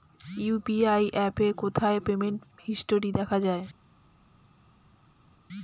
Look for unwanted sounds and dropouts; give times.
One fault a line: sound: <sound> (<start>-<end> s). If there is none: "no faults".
no faults